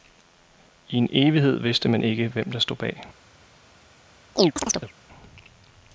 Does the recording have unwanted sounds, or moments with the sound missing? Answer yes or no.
yes